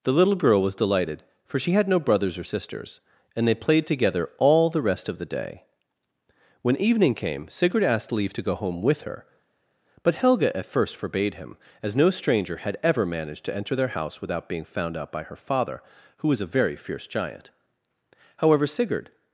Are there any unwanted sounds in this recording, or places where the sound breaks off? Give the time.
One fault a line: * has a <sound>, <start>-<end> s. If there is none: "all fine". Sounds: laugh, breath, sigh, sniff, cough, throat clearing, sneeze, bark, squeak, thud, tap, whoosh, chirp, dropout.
all fine